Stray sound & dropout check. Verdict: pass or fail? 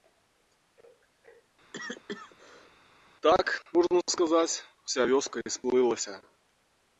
fail